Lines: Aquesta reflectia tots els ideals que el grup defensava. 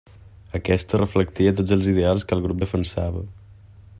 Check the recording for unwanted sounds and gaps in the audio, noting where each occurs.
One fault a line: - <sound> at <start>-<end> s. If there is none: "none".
none